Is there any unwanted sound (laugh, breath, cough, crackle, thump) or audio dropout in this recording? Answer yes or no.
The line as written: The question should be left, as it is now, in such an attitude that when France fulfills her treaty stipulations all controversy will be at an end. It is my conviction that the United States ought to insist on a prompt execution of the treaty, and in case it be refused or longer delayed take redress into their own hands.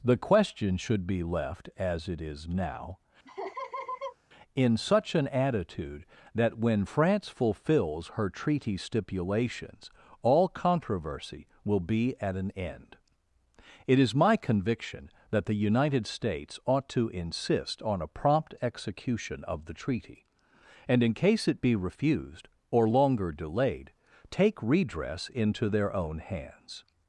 yes